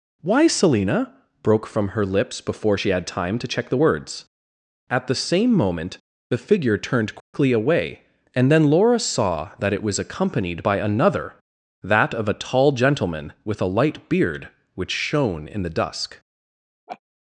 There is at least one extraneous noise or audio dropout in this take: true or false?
true